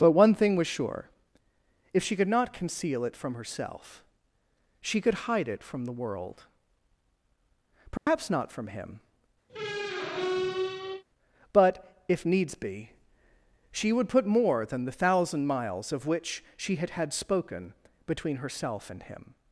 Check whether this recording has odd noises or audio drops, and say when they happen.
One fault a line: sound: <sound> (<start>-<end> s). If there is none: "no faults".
sound: dropout (8.0-8.1 s)
sound: squeak (9.5-11.0 s)